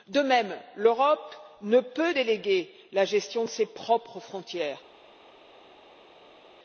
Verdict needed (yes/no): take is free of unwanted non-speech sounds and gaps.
yes